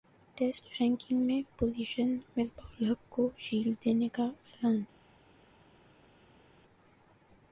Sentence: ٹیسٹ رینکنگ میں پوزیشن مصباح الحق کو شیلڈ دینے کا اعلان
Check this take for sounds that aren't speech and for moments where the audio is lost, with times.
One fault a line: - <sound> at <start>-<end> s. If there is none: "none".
none